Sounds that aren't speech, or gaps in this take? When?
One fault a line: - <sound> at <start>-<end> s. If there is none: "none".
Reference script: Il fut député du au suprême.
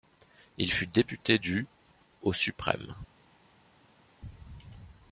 none